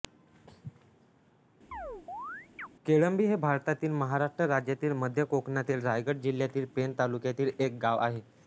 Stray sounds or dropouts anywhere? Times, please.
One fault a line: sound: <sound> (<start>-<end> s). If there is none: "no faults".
sound: chirp (1.7-2.7 s)